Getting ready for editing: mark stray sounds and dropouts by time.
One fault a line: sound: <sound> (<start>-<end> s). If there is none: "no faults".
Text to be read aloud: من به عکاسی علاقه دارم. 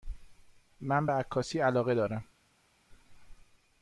no faults